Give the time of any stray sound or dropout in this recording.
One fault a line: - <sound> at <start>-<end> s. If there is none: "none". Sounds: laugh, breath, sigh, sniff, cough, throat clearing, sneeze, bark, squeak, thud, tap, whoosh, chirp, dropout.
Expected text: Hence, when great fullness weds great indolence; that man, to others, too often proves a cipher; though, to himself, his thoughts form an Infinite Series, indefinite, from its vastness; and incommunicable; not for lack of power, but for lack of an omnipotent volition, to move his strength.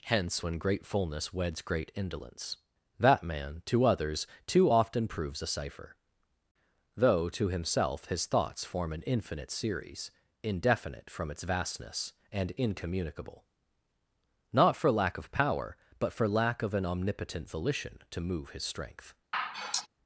- sigh at 19.3-19.9 s